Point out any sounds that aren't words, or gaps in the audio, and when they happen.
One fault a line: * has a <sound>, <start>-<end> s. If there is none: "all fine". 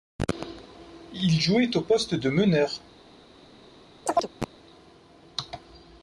* has a chirp, 4.1-4.5 s